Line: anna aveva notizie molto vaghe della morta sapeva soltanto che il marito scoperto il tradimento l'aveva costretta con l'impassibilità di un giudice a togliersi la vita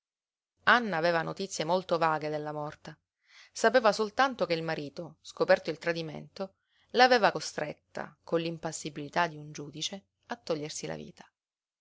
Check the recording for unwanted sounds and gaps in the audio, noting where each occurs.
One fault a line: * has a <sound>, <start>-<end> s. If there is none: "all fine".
all fine